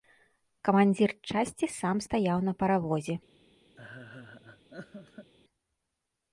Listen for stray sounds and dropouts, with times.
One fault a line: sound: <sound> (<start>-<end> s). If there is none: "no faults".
sound: laugh (3.8-5.3 s)